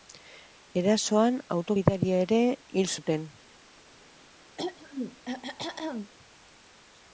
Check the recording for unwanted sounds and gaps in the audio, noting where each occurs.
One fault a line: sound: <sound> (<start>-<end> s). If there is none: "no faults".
sound: throat clearing (4.6-6.1 s)